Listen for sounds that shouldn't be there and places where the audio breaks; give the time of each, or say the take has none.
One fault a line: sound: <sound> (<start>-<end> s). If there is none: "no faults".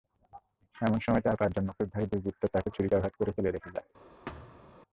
sound: thud (4.3-4.8 s)